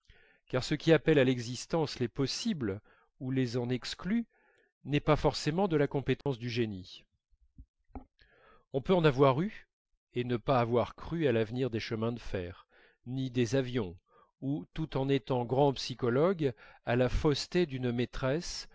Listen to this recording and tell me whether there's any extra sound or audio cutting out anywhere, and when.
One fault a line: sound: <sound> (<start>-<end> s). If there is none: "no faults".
sound: dropout (6.2-6.3 s)